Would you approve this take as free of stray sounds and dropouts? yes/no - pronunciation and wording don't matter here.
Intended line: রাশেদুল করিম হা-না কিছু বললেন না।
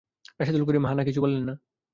yes